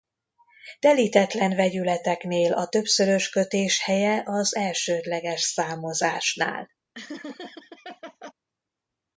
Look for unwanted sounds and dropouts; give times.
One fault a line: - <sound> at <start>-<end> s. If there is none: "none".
- laugh at 6.9-8.3 s